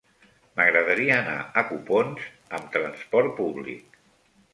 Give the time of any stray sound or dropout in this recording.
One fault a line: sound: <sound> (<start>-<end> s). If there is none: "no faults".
no faults